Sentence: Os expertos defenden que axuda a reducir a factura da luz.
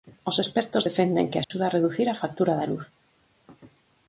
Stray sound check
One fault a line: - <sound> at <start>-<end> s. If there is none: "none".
- dropout at 1.4-1.5 s